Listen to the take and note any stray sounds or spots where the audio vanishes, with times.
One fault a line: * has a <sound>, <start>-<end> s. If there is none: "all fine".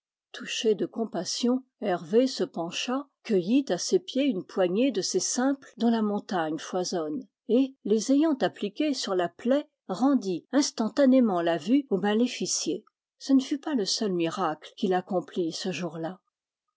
all fine